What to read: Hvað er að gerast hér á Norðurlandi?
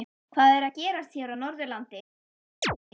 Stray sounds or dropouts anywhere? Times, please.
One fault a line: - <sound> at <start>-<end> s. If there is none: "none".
- chirp at 2.6-2.8 s